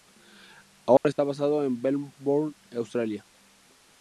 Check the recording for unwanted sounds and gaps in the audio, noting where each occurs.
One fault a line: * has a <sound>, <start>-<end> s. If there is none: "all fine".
* has a dropout, 1.0-1.0 s